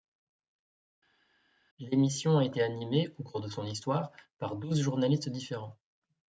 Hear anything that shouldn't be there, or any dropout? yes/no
no